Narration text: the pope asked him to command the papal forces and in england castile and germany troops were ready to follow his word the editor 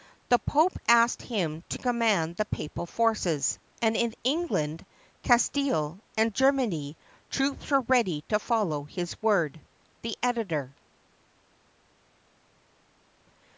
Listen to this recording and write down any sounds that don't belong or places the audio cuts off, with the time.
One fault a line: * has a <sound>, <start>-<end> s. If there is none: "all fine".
all fine